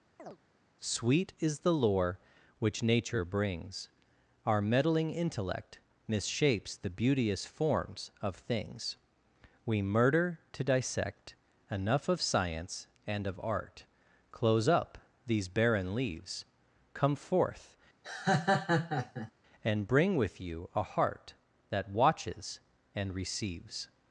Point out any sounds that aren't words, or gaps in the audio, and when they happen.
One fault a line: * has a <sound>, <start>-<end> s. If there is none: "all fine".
* has a chirp, 0.2-0.4 s
* has a laugh, 18.0-19.3 s